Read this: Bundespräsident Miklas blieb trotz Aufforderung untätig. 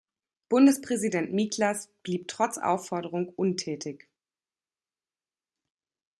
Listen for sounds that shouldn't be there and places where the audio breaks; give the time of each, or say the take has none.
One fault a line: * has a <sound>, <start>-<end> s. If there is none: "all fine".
all fine